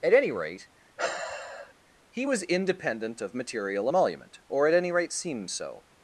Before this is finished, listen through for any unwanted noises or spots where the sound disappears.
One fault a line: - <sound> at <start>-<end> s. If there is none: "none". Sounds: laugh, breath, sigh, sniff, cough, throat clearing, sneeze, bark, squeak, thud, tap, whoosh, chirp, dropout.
- sigh at 1.0-1.7 s